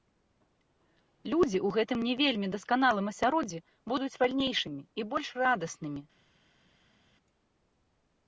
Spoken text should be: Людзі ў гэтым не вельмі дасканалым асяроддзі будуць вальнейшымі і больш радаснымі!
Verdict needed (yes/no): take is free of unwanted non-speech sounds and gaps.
yes